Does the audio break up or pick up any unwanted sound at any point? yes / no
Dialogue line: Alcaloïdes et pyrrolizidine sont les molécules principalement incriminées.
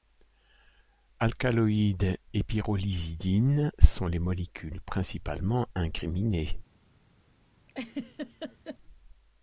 yes